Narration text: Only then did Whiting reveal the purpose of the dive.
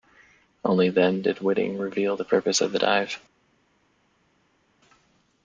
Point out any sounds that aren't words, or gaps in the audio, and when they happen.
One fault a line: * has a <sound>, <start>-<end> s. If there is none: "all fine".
all fine